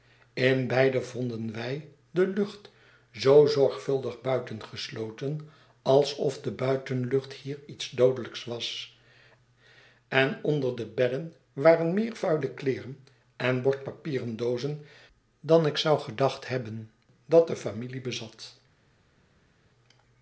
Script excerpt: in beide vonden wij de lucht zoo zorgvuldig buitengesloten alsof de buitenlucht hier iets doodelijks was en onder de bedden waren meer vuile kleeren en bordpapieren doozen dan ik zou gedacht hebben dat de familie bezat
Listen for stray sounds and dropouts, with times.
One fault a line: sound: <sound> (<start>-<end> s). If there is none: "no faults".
no faults